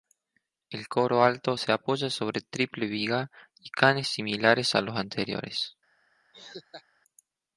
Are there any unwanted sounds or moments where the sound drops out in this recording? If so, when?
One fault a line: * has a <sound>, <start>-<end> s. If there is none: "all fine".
* has a laugh, 6.3-6.8 s